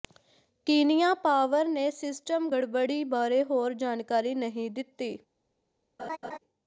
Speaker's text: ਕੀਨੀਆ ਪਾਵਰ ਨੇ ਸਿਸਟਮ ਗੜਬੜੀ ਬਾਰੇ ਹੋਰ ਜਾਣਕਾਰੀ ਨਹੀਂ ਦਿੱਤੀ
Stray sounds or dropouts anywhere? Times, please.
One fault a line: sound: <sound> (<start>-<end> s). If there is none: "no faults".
sound: laugh (6.0-6.4 s)